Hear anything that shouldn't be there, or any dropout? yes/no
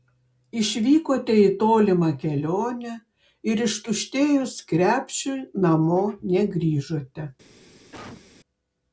yes